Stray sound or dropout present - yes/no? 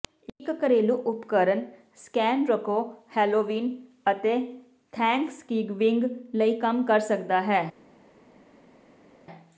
no